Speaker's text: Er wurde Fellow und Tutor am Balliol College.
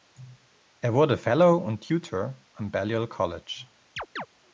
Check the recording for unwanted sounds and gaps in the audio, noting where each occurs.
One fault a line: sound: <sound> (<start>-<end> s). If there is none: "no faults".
sound: chirp (4.0-4.3 s)